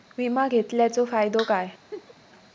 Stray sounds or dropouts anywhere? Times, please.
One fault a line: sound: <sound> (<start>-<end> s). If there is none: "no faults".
sound: laugh (1.9-2.1 s)